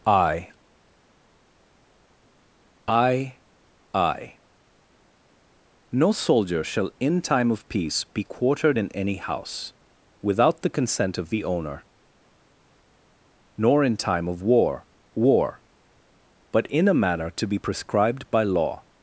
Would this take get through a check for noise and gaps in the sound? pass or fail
pass